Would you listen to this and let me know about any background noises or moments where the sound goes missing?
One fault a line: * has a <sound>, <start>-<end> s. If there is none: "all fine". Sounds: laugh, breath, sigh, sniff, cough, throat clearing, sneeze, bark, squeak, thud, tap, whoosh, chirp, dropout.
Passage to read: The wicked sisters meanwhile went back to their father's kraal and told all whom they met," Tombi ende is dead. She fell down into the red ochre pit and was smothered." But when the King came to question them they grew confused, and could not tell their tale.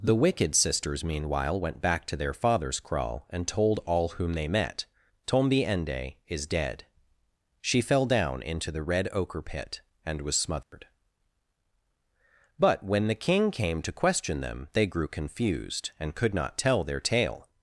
* has a dropout, 10.6-10.7 s